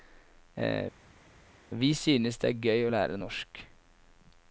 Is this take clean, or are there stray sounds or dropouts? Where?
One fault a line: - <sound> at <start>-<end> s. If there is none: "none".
none